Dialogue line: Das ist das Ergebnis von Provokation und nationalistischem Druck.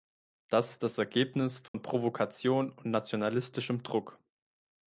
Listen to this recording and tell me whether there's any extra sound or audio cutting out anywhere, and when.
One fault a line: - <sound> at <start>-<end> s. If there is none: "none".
- dropout at 1.7-1.7 s